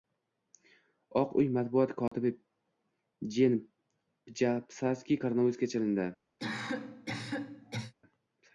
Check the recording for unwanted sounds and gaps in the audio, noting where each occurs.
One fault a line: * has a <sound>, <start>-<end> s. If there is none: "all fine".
* has a dropout, 2.1-2.1 s
* has a cough, 6.4-7.9 s